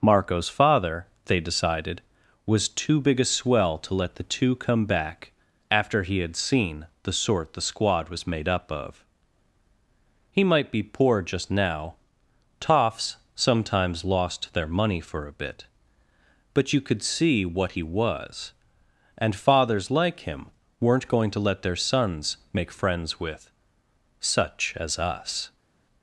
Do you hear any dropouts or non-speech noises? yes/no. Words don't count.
no